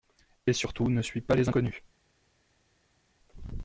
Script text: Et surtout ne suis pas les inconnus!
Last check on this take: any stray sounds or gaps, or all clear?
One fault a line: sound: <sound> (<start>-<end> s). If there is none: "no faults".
no faults